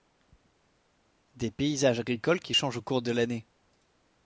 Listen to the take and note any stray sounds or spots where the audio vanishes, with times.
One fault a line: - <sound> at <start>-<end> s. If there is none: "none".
none